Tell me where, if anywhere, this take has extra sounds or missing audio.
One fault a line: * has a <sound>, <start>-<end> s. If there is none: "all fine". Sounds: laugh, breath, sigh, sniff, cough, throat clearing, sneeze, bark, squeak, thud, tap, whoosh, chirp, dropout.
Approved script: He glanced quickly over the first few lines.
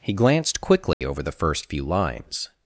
* has a dropout, 0.9-1.0 s